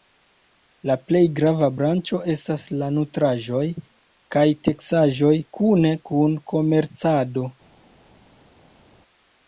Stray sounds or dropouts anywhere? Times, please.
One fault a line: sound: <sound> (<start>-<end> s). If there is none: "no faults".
no faults